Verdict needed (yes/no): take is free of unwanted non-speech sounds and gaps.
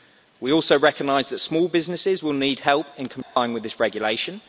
no